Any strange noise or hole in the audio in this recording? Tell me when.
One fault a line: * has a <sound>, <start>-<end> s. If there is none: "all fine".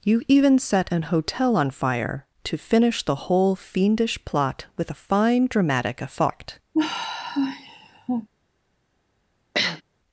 * has a sigh, 6.7-8.3 s
* has a sniff, 9.5-9.8 s